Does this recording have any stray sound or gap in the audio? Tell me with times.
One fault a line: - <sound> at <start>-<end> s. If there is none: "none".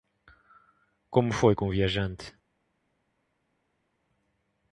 none